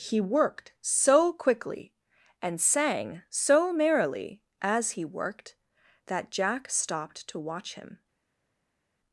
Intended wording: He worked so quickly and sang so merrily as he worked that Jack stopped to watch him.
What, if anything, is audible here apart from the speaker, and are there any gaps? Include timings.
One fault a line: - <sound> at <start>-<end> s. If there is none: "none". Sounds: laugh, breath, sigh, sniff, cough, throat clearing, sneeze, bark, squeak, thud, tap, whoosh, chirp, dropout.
none